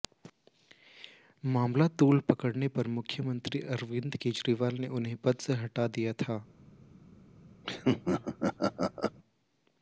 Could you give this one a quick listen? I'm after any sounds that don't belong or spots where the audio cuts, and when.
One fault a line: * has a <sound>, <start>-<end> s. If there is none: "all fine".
* has a laugh, 7.6-9.2 s